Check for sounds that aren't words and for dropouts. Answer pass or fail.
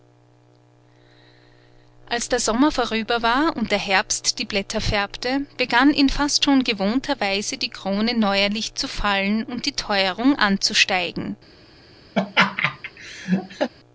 fail